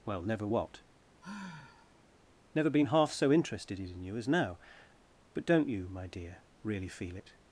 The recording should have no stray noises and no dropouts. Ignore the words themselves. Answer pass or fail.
fail